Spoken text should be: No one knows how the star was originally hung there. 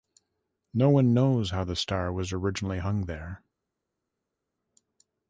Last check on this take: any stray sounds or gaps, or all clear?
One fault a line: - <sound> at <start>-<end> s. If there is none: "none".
none